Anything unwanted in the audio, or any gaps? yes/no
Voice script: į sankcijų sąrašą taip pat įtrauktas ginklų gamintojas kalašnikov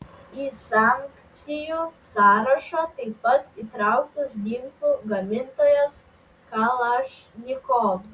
no